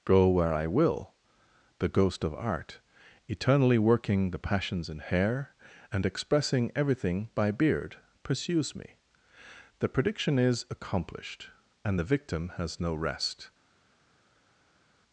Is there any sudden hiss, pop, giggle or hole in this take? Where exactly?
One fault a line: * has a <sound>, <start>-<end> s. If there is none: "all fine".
all fine